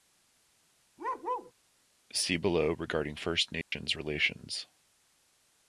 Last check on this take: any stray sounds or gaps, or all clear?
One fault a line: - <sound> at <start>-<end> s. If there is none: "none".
- bark at 1.0-1.5 s
- dropout at 3.6-3.7 s